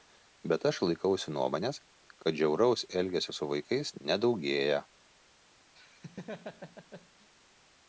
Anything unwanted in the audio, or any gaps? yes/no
yes